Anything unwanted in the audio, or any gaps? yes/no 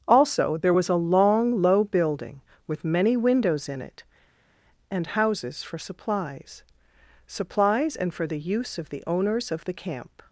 no